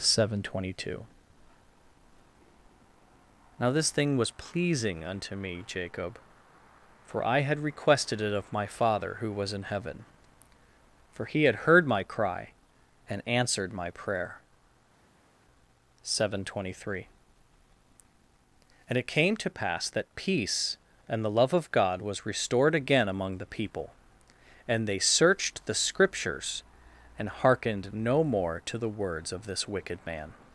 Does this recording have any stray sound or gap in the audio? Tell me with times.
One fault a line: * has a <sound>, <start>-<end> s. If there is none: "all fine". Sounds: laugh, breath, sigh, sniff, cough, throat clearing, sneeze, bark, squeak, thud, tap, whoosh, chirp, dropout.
all fine